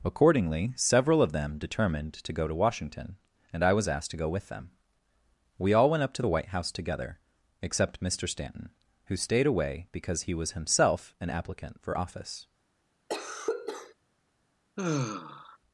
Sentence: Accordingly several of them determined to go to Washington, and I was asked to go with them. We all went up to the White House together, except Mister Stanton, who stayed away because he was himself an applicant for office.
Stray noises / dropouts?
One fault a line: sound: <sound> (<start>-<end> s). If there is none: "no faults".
sound: cough (13.1-13.9 s)
sound: sigh (14.8-15.6 s)